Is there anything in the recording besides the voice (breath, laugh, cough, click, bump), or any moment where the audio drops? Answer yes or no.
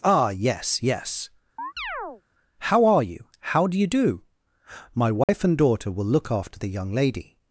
yes